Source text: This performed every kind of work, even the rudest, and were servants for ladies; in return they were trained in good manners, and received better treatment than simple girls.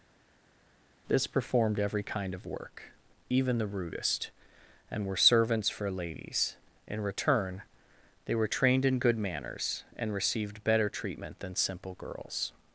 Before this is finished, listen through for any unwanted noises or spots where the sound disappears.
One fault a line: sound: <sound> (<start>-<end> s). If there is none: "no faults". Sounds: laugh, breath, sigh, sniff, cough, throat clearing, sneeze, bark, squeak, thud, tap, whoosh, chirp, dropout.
no faults